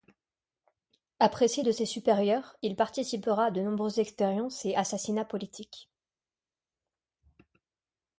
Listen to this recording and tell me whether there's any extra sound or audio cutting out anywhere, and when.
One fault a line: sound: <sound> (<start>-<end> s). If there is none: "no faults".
no faults